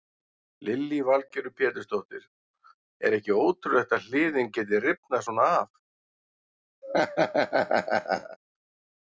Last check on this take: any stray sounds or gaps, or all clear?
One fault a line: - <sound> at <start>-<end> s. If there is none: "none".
- laugh at 6.8-8.4 s